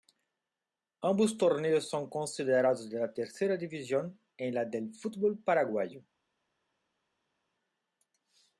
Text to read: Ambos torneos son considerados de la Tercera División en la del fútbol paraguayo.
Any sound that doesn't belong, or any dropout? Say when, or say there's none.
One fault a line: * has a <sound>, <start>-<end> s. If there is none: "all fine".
all fine